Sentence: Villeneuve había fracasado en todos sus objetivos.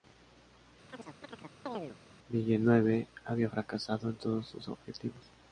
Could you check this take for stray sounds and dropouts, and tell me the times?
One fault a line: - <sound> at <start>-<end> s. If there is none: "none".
- chirp at 0.9-2.0 s